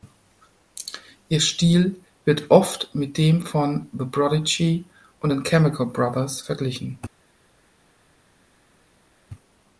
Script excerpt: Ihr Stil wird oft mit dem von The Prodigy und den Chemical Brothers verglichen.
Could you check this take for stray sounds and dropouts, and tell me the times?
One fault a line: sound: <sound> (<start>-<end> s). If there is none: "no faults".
no faults